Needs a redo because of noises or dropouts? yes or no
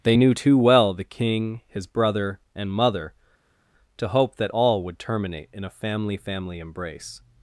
no